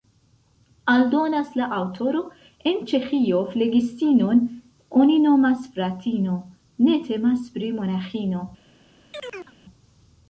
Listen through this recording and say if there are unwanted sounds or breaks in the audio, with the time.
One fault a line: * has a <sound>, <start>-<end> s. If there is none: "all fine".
* has a chirp, 9.1-9.5 s